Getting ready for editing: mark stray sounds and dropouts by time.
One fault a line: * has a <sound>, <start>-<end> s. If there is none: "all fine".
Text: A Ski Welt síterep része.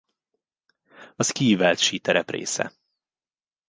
all fine